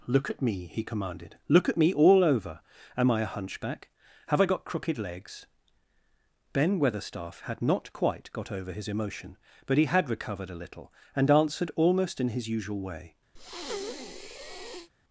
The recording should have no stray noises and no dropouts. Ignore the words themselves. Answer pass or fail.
fail